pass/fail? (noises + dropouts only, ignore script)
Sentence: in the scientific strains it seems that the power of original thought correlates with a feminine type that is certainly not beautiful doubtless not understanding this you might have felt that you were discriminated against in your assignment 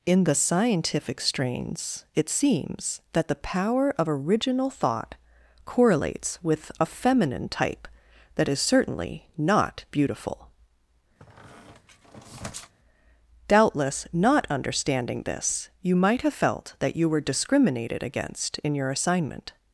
fail